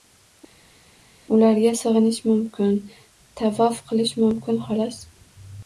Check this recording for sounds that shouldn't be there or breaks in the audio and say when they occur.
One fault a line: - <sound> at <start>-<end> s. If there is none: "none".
none